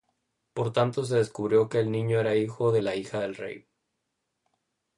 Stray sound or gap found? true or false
false